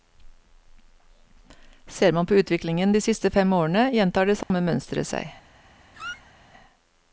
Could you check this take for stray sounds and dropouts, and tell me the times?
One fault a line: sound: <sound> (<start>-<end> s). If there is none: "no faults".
sound: dropout (4.4-4.5 s)
sound: squeak (5.9-6.3 s)